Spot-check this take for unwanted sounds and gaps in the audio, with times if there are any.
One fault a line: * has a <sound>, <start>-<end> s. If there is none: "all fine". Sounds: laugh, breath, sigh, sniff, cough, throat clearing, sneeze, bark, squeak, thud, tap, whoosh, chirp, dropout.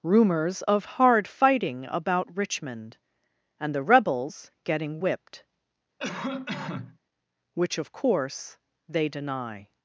* has a cough, 6.0-7.0 s